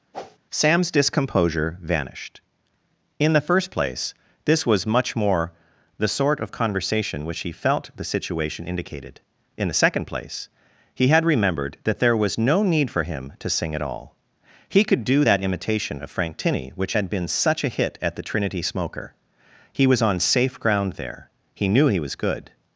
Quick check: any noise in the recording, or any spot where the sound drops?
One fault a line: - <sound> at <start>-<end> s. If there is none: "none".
- whoosh at 0.1-0.4 s